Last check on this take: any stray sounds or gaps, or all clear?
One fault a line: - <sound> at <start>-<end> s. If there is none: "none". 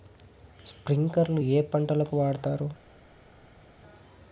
none